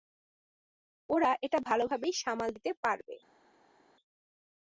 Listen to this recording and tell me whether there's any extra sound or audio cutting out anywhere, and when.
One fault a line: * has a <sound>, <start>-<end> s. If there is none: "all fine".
all fine